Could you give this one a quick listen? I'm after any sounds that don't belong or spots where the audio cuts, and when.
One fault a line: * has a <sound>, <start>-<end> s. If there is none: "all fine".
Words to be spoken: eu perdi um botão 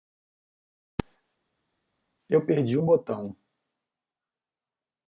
all fine